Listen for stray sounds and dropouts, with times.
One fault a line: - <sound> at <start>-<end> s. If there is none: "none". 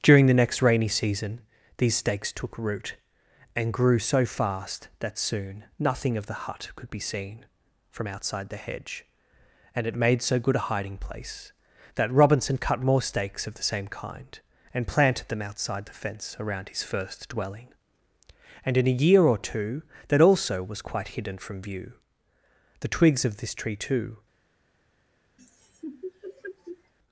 - laugh at 25.4-26.9 s